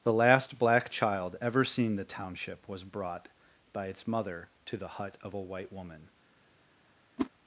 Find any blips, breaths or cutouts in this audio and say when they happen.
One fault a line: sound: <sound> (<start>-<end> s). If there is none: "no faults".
sound: whoosh (7.2-7.3 s)